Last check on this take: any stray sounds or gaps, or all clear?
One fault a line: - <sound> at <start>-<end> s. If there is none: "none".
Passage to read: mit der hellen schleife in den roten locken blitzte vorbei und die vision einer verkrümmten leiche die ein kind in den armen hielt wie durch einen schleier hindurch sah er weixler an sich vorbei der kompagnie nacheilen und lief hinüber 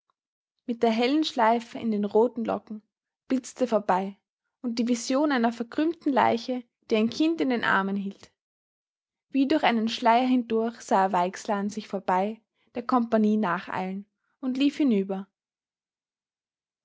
none